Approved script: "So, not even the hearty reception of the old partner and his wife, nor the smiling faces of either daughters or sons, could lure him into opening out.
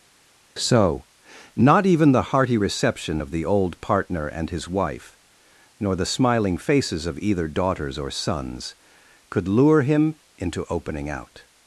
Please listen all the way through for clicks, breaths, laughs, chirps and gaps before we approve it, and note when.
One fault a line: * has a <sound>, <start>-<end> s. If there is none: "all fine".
all fine